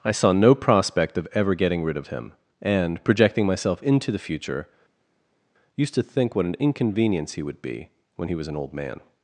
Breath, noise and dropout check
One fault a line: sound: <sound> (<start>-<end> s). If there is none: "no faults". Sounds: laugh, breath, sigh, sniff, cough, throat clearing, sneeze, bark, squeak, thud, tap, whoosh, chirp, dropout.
no faults